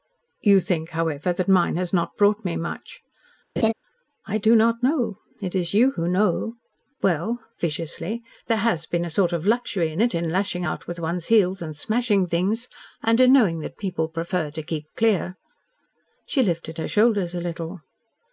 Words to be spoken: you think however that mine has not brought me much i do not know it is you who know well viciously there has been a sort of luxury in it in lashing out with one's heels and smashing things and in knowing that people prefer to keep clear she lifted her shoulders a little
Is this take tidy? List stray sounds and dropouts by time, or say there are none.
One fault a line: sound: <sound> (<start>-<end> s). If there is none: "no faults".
sound: laugh (3.6-3.7 s)